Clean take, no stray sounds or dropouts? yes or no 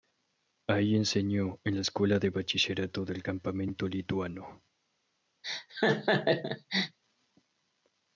no